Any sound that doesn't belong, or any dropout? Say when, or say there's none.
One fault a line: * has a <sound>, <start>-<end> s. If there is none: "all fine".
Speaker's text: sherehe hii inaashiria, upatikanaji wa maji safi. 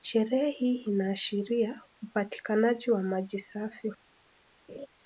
* has a laugh, 4.7-4.9 s